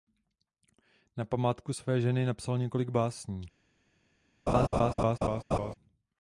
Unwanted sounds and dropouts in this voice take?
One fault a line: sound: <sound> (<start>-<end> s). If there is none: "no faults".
sound: laugh (4.5-5.7 s)